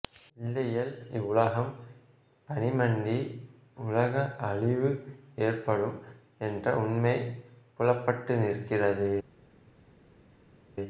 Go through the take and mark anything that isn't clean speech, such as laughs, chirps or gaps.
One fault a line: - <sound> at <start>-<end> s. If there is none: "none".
none